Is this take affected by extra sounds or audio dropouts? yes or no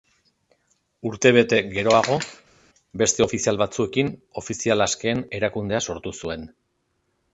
no